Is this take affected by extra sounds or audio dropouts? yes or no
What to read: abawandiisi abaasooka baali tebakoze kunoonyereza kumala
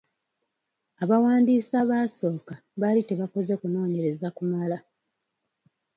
no